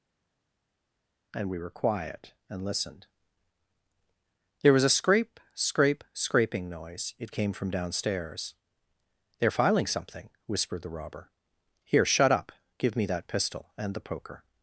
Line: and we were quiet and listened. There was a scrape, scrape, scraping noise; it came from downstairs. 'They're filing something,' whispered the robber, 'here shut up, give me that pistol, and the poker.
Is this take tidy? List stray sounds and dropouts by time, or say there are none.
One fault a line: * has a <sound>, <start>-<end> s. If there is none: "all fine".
all fine